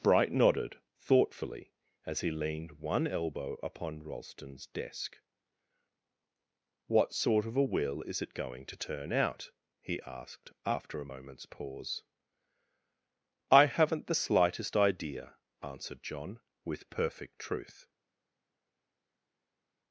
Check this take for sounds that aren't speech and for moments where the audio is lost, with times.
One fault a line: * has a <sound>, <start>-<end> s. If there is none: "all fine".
all fine